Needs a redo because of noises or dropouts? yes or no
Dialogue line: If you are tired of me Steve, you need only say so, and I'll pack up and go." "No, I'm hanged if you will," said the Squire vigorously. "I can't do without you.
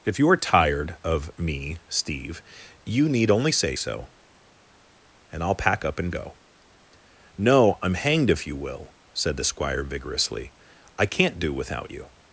no